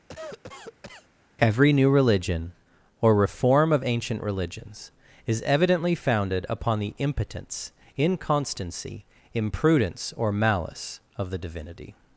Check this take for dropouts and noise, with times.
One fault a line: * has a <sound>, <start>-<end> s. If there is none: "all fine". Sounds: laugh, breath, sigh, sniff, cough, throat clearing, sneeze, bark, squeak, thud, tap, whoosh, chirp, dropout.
* has a cough, 0.1-1.1 s